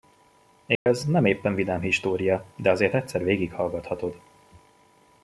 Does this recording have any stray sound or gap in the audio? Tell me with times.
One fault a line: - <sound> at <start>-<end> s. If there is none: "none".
- dropout at 0.8-0.9 s